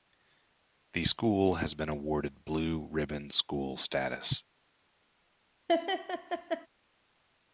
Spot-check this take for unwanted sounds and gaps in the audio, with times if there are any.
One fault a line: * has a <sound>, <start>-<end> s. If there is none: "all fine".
* has a laugh, 5.7-6.7 s